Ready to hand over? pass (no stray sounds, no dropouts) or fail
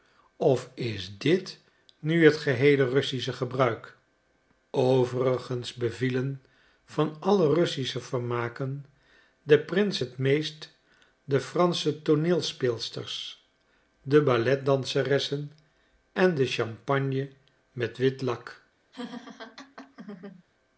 fail